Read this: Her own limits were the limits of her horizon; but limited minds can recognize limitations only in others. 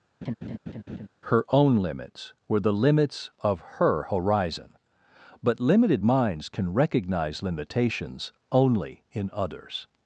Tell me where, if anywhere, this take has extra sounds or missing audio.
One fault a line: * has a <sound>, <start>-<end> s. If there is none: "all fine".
* has a laugh, 0.2-1.1 s